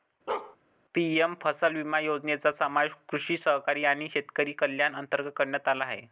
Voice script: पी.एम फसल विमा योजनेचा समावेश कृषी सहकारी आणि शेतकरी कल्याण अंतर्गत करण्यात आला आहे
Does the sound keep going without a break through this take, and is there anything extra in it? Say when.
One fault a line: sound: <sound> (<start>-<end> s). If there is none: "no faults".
sound: bark (0.3-0.6 s)